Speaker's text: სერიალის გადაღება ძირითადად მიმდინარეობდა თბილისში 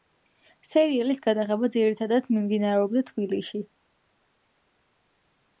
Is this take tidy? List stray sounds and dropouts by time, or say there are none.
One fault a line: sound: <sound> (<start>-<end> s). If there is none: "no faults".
no faults